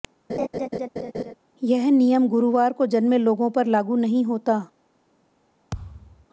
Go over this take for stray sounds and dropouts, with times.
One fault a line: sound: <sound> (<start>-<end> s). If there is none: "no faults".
sound: laugh (0.3-1.3 s)
sound: thud (5.7-6.3 s)